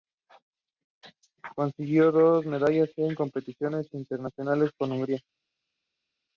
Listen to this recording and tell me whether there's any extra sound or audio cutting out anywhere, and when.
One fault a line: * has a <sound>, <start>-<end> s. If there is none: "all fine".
all fine